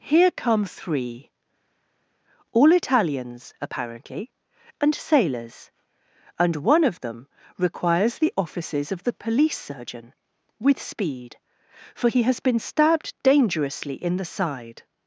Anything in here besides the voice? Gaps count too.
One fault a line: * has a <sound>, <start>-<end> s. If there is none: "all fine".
all fine